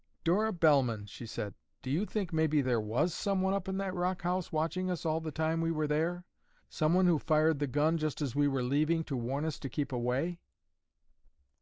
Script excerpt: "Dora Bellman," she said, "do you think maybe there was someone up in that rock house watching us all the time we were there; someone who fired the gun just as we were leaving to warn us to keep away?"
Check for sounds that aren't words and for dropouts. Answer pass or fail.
pass